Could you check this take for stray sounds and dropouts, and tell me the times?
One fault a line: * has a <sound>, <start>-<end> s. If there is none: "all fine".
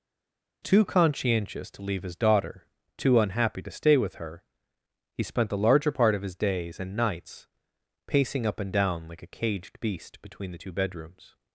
all fine